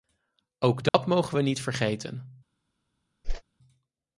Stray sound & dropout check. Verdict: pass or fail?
fail